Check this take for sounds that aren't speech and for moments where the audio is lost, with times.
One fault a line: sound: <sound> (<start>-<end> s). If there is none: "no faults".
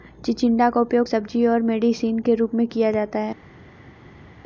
no faults